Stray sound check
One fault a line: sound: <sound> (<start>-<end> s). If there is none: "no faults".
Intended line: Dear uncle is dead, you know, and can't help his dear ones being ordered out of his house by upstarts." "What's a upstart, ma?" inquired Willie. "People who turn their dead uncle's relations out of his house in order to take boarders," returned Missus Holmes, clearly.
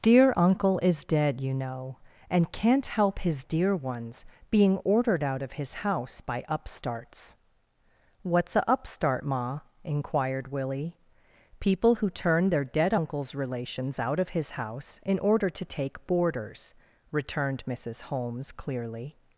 no faults